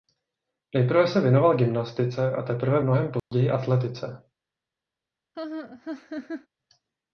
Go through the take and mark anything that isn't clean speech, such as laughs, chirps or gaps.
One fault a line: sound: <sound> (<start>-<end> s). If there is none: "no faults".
sound: dropout (3.2-3.3 s)
sound: laugh (5.3-6.5 s)